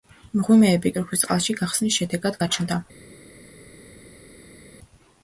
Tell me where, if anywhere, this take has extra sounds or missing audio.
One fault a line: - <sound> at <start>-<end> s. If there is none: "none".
none